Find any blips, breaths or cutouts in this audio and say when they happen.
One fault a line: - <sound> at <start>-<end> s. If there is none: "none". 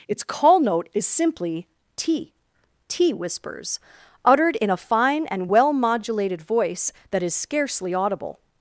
none